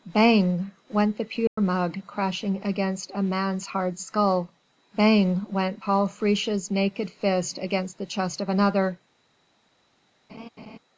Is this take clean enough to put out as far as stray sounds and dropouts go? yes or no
no